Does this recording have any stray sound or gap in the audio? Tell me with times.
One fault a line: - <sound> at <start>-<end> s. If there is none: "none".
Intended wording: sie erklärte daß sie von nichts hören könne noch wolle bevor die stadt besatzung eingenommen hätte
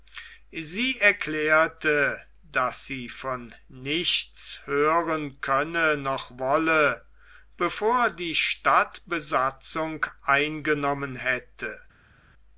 none